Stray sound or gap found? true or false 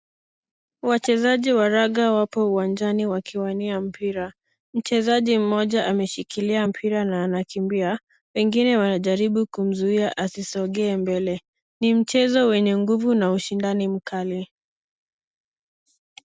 false